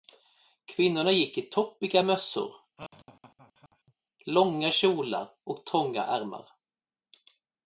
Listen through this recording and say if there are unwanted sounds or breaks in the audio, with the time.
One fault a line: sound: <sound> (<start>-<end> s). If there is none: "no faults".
sound: laugh (2.8-3.9 s)